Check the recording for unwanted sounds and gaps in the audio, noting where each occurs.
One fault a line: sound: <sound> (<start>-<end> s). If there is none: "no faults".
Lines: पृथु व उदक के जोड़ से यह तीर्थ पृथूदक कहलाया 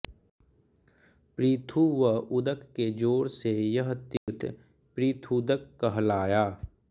sound: dropout (4.2-4.3 s)